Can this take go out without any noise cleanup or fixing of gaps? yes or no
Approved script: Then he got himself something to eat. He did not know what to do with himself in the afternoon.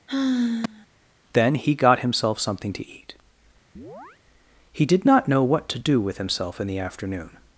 no